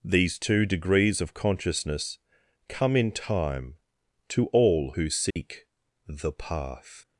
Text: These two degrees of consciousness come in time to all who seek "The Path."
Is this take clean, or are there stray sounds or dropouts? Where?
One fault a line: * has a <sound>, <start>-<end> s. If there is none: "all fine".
* has a dropout, 5.3-5.4 s